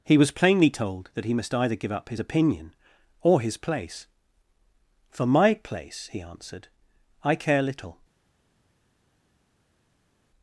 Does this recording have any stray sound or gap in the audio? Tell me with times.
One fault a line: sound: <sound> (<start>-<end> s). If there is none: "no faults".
no faults